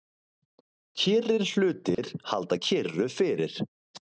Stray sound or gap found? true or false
true